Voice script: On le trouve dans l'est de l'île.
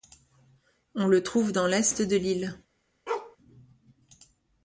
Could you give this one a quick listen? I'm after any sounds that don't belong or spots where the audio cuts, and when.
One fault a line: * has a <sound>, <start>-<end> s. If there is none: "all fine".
* has a bark, 3.1-3.4 s